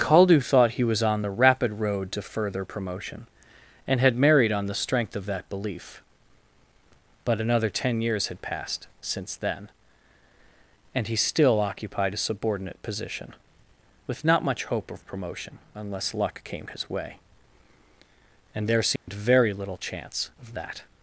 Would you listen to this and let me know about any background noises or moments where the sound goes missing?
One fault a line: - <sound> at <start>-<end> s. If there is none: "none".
- dropout at 19.0-19.1 s